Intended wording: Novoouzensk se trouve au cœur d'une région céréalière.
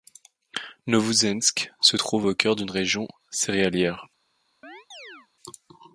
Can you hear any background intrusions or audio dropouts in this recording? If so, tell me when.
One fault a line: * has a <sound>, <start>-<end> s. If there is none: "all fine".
* has a chirp, 4.6-5.3 s